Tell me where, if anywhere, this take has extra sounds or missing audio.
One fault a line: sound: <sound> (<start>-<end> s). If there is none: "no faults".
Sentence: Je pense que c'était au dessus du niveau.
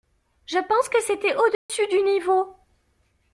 sound: dropout (1.5-1.7 s)